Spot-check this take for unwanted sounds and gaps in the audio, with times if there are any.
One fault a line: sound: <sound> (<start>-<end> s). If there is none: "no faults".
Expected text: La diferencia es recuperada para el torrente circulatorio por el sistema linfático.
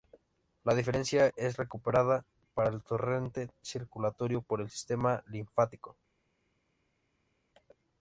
no faults